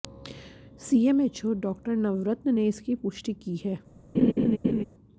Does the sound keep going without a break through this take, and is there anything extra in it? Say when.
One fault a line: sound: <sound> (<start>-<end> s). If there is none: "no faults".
sound: laugh (4.1-4.8 s)